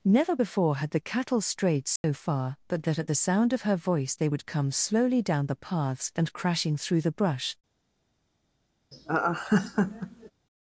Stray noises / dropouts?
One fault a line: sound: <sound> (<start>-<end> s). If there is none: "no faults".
sound: dropout (2.0-2.0 s)
sound: laugh (8.9-10.3 s)